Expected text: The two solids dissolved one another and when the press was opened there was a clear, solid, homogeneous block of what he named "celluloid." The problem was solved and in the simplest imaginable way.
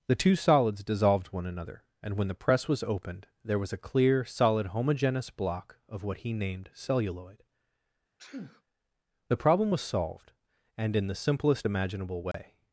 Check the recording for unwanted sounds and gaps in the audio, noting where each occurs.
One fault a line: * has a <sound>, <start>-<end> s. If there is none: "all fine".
* has a sneeze, 8.2-8.6 s
* has a dropout, 12.3-12.3 s